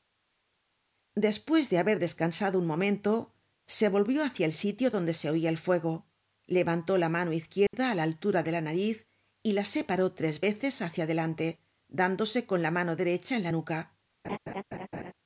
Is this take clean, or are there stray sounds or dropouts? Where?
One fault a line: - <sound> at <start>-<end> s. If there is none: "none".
- dropout at 7.7-7.7 s
- laugh at 14.2-15.1 s